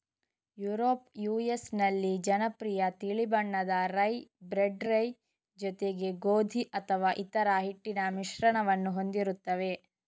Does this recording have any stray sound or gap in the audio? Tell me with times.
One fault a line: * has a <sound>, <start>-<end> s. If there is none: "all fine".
all fine